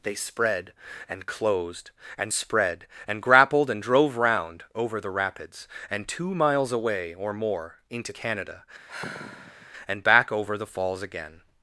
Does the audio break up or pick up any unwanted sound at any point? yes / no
yes